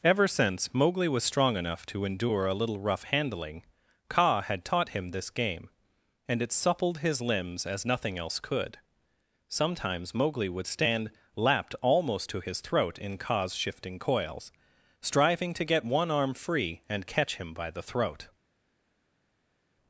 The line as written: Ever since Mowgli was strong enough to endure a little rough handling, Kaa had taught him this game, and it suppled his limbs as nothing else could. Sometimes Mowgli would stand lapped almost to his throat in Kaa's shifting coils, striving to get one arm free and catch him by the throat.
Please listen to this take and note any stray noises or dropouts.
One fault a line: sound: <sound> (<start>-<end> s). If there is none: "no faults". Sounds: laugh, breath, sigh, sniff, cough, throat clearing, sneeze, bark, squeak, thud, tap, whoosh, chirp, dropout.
no faults